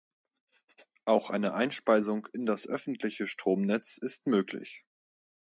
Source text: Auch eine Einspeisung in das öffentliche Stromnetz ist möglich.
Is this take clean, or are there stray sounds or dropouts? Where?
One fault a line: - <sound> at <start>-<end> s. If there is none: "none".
none